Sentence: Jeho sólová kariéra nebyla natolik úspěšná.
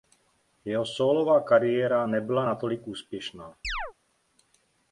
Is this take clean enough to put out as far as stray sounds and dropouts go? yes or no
no